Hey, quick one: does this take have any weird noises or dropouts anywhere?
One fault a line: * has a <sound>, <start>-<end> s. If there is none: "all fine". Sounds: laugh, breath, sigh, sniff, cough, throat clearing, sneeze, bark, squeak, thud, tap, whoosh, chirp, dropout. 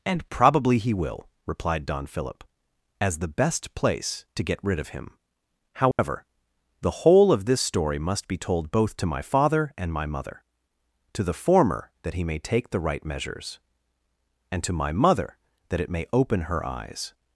* has a dropout, 5.9-6.0 s